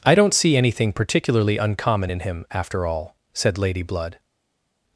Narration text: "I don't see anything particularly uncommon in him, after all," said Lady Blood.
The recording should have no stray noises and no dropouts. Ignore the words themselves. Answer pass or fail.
pass